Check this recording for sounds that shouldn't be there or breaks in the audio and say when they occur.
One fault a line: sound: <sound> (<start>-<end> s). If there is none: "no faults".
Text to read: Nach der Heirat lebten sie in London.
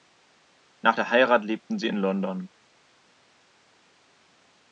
no faults